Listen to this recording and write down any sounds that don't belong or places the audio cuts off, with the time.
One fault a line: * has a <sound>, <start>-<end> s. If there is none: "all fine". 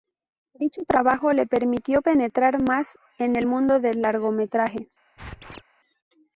* has a squeak, 5.2-5.6 s